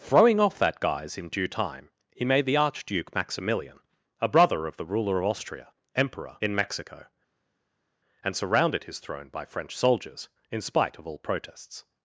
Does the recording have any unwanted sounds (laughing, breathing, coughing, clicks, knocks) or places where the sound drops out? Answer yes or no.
no